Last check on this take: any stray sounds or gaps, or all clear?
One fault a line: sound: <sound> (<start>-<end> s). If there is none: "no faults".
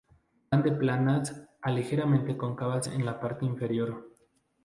no faults